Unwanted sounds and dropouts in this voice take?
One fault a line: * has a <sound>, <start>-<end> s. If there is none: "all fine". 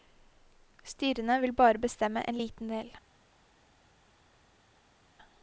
all fine